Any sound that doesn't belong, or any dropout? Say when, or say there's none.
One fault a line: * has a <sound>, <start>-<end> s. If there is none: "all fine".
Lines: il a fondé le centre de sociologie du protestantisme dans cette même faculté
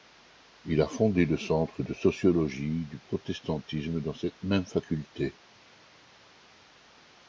all fine